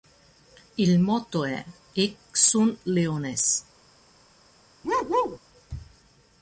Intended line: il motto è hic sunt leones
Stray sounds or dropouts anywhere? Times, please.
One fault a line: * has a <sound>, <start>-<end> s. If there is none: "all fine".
* has a bark, 4.8-5.4 s